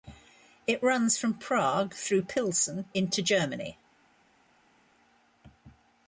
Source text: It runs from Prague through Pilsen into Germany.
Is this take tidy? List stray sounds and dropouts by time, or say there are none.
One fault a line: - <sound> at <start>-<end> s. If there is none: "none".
none